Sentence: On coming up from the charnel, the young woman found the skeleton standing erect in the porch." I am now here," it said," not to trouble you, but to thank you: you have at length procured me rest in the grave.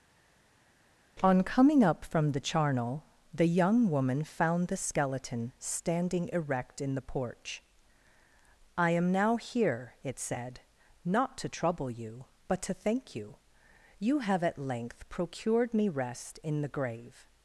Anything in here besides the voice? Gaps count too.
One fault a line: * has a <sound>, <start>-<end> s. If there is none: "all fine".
all fine